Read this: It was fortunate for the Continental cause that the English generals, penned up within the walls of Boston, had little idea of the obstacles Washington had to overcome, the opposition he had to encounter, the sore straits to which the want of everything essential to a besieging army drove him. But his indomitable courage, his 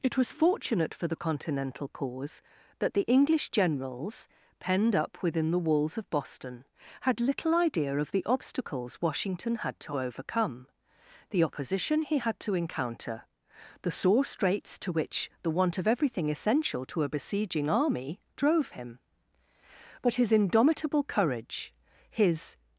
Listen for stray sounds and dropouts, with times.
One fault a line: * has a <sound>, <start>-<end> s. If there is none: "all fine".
all fine